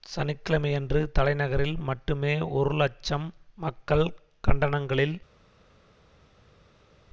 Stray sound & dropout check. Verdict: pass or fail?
pass